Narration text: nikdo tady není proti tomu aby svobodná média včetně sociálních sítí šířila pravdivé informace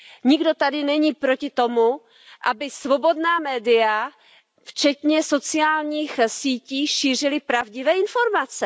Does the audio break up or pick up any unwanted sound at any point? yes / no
no